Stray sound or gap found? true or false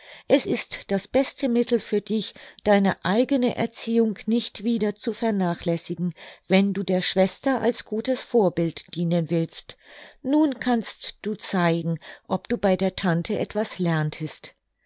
false